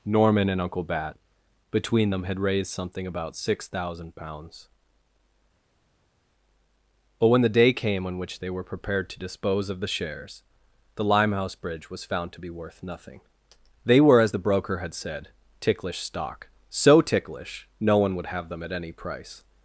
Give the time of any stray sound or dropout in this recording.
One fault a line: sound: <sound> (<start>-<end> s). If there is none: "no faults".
no faults